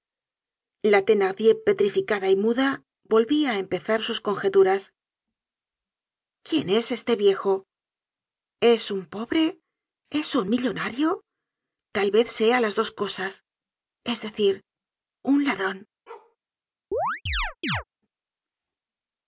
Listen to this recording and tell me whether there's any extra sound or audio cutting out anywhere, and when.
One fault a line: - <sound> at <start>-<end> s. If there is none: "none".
- bark at 16.1-16.4 s
- chirp at 16.9-17.8 s